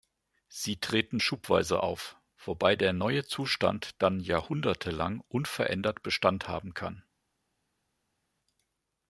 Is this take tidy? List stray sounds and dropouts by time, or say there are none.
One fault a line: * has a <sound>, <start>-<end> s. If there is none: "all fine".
all fine